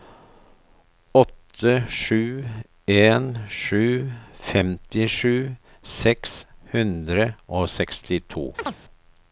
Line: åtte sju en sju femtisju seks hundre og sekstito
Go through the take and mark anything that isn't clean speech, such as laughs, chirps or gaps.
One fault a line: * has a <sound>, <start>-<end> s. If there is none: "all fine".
* has a chirp, 8.6-8.8 s